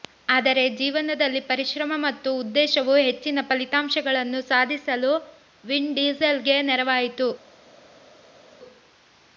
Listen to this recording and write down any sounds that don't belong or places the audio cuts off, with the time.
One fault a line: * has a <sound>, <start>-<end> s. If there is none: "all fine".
all fine